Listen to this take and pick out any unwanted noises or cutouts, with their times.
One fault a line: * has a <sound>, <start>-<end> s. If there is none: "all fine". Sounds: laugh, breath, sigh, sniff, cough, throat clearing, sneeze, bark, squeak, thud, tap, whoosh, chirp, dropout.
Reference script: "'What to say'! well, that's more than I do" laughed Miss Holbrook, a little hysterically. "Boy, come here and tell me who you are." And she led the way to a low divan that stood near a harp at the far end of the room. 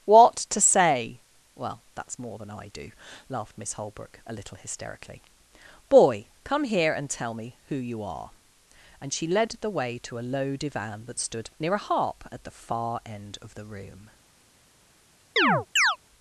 * has a chirp, 15.4-16.0 s